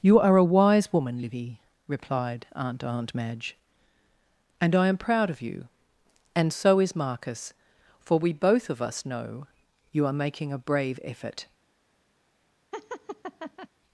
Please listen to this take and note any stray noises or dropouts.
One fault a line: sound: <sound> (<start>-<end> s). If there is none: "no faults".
sound: laugh (12.7-13.7 s)